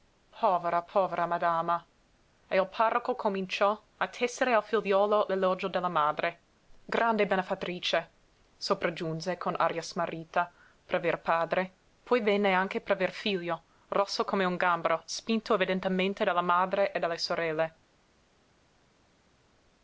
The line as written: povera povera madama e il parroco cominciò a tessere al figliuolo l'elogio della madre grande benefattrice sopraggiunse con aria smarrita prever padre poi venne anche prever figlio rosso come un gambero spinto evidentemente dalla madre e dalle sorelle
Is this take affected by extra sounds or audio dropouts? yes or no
no